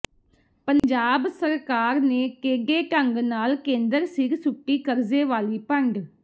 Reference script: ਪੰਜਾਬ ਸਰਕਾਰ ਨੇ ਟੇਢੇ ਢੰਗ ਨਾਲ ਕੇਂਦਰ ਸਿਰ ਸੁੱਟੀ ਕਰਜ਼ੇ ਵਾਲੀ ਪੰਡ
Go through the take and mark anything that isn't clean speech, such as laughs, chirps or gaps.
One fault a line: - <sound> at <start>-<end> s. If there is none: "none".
- dropout at 0.8-0.8 s